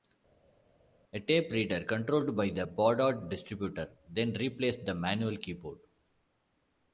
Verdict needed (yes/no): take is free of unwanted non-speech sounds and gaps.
yes